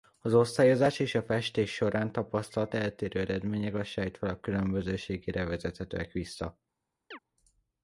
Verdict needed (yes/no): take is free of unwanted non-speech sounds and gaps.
no